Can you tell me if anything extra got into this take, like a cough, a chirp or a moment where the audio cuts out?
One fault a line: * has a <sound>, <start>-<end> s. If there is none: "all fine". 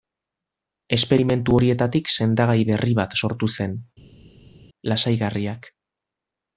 all fine